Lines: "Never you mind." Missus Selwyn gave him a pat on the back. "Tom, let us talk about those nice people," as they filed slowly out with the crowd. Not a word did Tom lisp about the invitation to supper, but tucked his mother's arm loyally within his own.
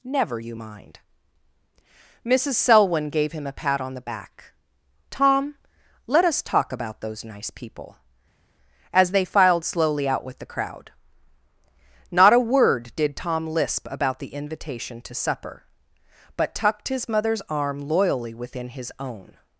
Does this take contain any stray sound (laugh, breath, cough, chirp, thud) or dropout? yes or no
no